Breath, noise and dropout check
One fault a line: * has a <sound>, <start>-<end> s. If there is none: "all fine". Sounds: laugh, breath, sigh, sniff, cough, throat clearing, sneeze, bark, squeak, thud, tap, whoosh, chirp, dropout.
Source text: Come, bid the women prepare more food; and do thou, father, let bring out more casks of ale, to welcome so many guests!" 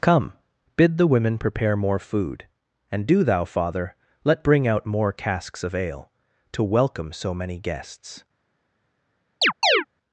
* has a chirp, 9.4-9.9 s